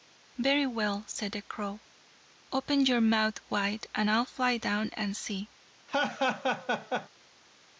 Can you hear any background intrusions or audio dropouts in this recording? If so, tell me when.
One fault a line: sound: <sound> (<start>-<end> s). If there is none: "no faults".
sound: laugh (5.9-7.1 s)